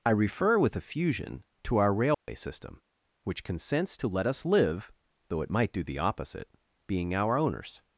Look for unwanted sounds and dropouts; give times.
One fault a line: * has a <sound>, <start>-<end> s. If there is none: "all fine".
* has a dropout, 2.1-2.3 s